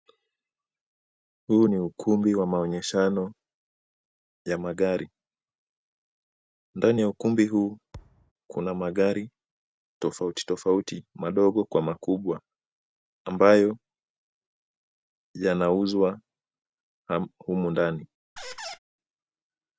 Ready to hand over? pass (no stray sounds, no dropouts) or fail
fail